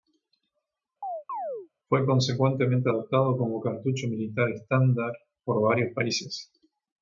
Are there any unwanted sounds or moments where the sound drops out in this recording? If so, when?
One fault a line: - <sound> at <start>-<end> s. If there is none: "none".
- chirp at 1.0-1.7 s